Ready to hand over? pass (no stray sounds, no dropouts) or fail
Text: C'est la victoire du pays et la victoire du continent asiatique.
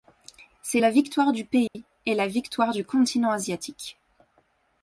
fail